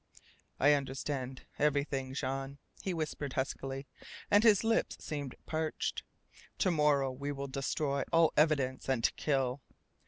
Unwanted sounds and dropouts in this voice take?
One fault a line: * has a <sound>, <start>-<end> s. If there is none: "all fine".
all fine